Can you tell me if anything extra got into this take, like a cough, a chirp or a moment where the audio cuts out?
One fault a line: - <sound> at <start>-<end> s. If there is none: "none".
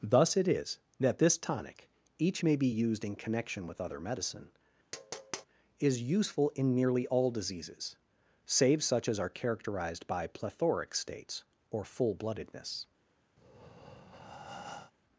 - tap at 4.9-5.5 s
- breath at 13.4-14.9 s